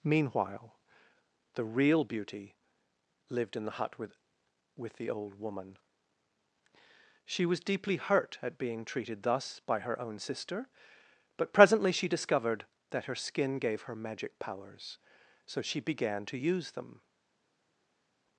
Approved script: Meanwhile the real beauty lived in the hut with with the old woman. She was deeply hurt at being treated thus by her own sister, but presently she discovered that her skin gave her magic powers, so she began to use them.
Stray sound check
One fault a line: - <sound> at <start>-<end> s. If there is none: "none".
none